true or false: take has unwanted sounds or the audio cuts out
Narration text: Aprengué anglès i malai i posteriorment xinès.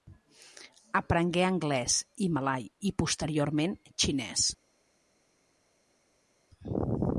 false